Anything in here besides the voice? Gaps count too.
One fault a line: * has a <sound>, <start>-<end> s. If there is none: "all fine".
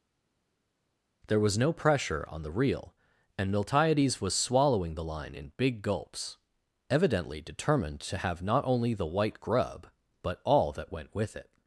all fine